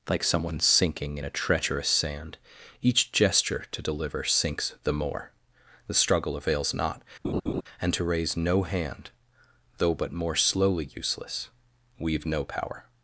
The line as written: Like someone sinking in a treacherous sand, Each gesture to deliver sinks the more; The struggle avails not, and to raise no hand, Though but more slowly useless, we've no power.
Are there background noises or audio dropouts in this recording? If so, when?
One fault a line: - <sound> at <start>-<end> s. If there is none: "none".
- laugh at 7.2-7.6 s